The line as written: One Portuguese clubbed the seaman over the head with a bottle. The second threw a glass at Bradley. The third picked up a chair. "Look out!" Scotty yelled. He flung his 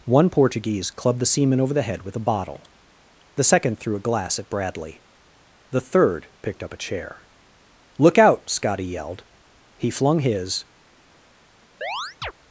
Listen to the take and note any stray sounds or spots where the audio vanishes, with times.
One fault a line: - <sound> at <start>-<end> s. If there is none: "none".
- chirp at 11.8-12.3 s